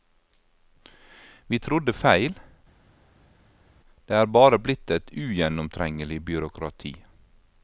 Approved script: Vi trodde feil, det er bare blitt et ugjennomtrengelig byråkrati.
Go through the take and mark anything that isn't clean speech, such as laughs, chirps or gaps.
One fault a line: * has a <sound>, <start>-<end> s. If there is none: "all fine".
all fine